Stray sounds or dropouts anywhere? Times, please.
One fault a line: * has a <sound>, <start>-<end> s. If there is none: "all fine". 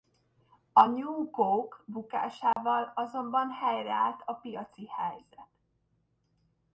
* has a dropout, 2.5-2.6 s